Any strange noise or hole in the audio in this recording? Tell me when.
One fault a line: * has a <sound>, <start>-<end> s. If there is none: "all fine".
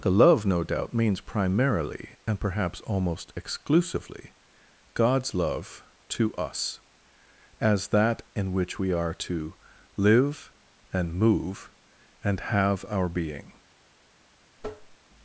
* has a tap, 14.6-15.0 s